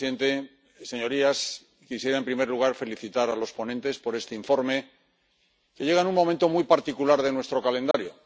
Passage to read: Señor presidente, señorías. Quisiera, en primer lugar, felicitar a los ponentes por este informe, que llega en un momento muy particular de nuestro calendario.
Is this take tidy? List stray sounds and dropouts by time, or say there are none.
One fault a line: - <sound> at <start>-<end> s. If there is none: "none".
- dropout at 7.9-7.9 s